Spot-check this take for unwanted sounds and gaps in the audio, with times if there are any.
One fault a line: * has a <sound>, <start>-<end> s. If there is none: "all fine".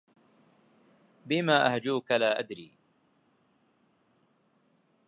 all fine